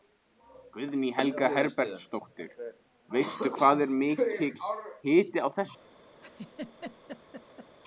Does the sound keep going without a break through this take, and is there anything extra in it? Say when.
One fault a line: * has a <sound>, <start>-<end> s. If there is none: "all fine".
* has a laugh, 6.2-7.7 s